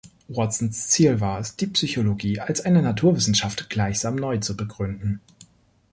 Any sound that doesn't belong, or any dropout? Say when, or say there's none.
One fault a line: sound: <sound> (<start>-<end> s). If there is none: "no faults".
no faults